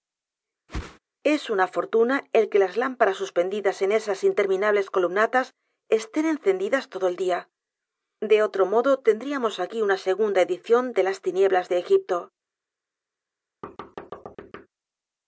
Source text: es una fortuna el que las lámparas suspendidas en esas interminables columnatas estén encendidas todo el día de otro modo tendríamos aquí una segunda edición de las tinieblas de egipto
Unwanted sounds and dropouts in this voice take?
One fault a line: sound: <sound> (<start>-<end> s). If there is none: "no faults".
sound: whoosh (0.7-1.0 s)
sound: thud (13.6-14.7 s)